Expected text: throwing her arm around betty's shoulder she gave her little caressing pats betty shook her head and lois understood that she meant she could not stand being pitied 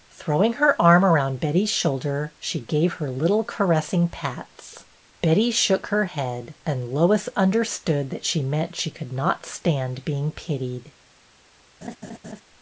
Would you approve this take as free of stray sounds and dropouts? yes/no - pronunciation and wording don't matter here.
no